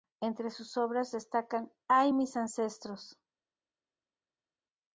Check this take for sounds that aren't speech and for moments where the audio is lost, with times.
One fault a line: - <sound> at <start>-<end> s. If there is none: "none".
none